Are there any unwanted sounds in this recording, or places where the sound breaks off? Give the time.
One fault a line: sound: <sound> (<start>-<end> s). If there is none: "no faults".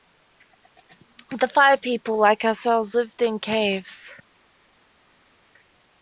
no faults